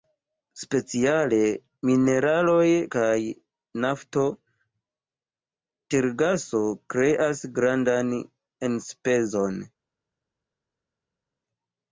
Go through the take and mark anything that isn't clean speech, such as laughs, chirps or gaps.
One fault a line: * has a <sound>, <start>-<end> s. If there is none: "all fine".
all fine